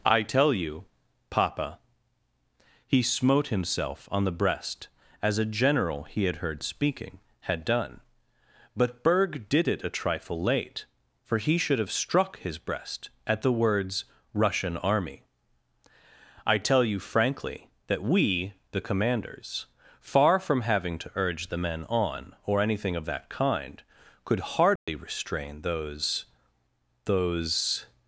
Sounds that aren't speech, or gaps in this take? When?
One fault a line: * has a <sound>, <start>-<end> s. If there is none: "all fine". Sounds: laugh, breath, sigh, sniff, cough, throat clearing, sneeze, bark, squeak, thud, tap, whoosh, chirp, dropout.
* has a dropout, 24.8-24.9 s